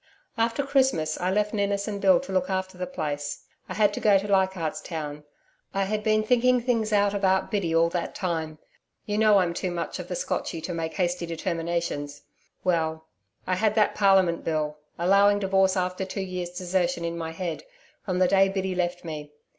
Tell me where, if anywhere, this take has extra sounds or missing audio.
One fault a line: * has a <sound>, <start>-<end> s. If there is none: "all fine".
all fine